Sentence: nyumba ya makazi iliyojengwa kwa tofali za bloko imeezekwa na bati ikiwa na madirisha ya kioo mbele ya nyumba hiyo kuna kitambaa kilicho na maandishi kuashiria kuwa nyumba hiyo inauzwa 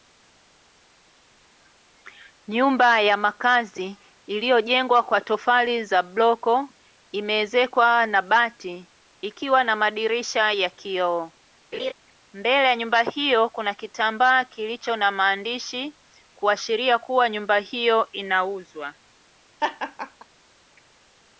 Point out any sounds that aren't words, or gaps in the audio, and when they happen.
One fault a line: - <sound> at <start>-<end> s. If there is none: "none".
- laugh at 11.7-11.9 s
- laugh at 19.6-20.3 s